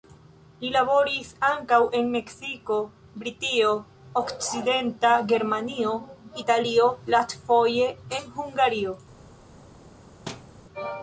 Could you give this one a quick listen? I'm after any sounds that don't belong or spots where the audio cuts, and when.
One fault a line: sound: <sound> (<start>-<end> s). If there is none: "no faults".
sound: thud (10.3-10.5 s)